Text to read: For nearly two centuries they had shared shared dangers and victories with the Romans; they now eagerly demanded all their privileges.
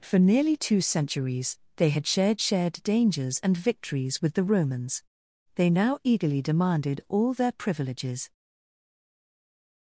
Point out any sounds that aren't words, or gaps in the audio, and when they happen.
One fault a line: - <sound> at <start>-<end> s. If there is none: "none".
none